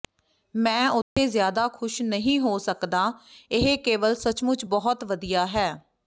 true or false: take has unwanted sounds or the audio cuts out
true